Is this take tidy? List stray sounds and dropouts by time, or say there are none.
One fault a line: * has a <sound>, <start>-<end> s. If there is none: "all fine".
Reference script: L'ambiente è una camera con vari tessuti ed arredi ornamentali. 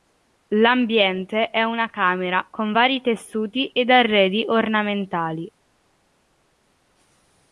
all fine